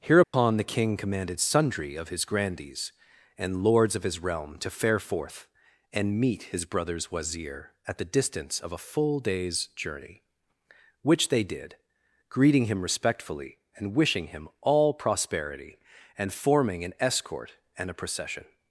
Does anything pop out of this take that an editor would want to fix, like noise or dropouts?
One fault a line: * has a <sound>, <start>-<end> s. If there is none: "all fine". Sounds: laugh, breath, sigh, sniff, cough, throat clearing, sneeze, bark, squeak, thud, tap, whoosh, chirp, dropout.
* has a dropout, 0.2-0.3 s